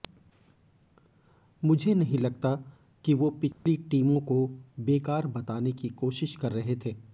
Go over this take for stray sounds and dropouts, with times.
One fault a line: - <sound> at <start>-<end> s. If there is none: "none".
- dropout at 3.5-3.7 s